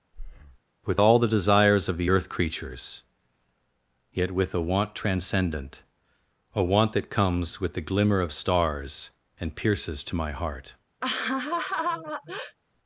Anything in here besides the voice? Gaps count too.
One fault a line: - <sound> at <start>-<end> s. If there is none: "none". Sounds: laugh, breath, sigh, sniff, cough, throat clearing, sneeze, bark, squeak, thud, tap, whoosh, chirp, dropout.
- breath at 0.1-0.6 s
- laugh at 11.0-12.6 s